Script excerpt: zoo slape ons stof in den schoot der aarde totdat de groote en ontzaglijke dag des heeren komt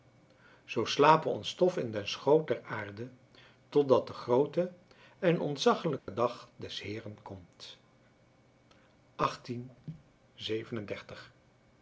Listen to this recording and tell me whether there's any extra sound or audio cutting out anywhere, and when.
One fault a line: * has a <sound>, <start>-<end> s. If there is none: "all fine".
* has a dropout, 6.0-6.1 s